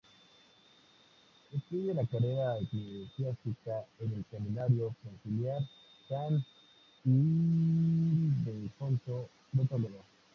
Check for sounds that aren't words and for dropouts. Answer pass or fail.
pass